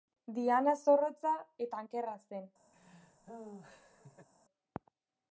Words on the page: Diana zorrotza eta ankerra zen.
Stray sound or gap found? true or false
true